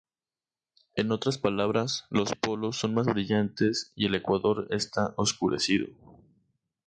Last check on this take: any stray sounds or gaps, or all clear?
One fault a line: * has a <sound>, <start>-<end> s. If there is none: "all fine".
all fine